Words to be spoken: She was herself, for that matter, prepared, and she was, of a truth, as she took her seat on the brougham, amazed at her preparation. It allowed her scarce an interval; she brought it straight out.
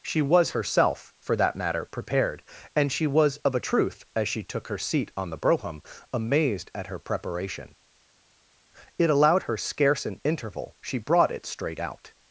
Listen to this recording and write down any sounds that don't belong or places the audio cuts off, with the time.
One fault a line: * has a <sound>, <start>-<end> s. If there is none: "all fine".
all fine